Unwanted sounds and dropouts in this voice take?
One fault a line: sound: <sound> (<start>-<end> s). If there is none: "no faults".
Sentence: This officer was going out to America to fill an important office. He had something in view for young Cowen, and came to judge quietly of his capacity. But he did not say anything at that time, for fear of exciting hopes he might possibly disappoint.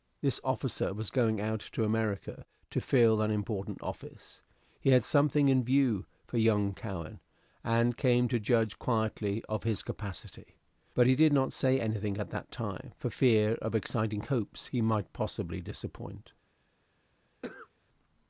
sound: cough (17.4-17.7 s)